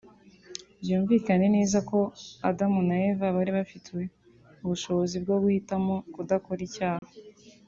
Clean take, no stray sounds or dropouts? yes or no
no